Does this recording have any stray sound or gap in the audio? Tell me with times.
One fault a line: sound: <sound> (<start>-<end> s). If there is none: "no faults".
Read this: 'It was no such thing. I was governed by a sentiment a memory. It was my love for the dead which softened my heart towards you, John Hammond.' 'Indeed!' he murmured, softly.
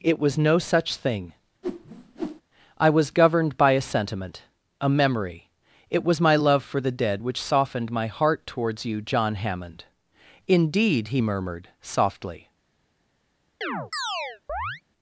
sound: whoosh (1.6-2.4 s)
sound: chirp (13.6-14.8 s)